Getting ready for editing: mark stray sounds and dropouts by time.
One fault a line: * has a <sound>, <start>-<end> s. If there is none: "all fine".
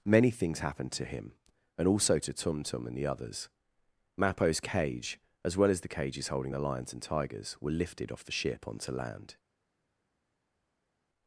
all fine